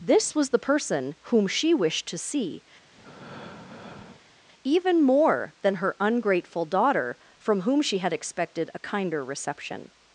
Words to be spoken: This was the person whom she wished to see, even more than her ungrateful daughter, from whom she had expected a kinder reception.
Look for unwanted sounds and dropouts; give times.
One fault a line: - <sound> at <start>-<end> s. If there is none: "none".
- breath at 2.9-4.4 s